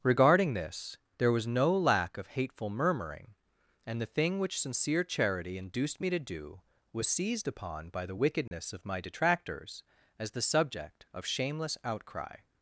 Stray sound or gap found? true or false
true